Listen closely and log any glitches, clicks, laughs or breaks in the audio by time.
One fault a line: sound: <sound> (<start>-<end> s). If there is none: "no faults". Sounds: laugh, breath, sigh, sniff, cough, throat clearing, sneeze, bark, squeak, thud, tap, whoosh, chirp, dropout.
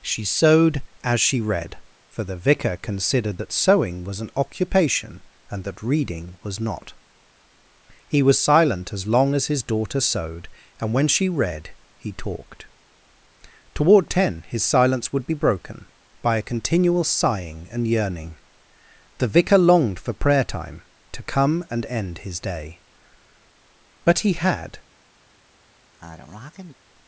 sound: sneeze (25.9-26.7 s)